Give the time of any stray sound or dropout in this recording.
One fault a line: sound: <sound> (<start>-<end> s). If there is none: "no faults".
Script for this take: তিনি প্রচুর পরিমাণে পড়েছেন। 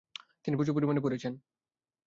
no faults